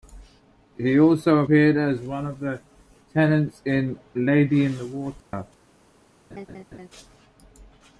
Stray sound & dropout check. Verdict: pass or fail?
fail